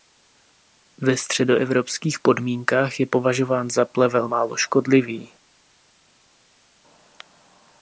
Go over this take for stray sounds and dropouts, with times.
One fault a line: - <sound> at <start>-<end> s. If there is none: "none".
none